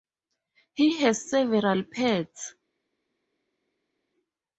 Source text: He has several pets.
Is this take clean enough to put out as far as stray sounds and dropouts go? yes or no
yes